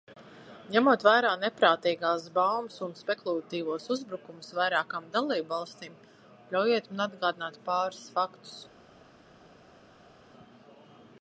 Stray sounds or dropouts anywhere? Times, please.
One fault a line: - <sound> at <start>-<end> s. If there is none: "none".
none